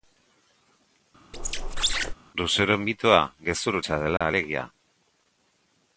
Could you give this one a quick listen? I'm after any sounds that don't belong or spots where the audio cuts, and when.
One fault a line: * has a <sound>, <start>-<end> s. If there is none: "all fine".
* has a squeak, 1.3-2.1 s
* has a dropout, 4.2-4.2 s